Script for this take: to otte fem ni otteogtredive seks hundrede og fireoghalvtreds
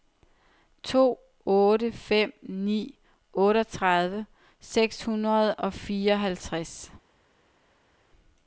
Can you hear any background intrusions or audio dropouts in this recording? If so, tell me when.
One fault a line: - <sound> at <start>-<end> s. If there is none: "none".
none